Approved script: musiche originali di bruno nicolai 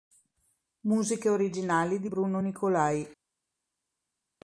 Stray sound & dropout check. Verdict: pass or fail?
pass